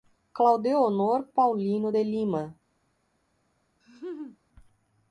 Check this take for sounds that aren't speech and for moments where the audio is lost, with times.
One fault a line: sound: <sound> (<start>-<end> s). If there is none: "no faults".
sound: laugh (3.8-4.4 s)